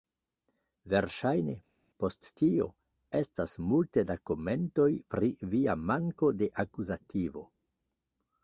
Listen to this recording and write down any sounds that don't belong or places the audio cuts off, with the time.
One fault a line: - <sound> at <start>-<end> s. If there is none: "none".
none